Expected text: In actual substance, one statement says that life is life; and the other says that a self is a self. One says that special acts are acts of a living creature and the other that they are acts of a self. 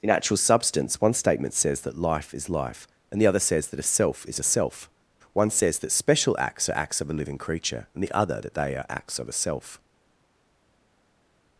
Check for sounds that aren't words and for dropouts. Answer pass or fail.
pass